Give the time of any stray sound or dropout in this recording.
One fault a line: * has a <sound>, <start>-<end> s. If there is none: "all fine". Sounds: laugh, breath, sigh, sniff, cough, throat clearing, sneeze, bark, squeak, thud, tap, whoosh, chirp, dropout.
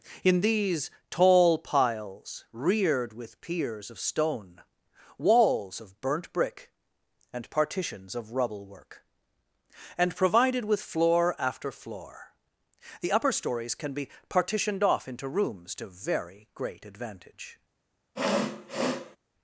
* has a sniff, 18.2-19.2 s